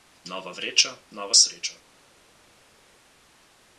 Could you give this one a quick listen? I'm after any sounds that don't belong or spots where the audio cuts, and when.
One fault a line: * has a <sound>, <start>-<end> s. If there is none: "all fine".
all fine